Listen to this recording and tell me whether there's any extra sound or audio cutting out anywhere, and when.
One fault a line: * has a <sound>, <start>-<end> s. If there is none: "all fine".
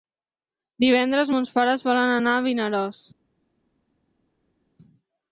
all fine